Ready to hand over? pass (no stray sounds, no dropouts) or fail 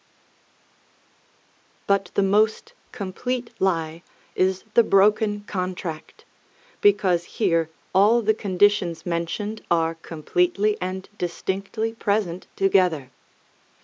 pass